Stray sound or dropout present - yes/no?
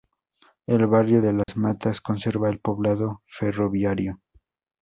yes